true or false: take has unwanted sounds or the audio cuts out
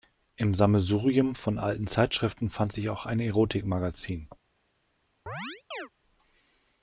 true